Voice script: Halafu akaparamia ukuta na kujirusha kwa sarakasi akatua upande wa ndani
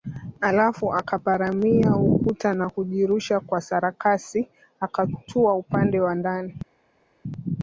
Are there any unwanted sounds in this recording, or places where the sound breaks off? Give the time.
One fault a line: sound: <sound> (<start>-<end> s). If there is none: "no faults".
no faults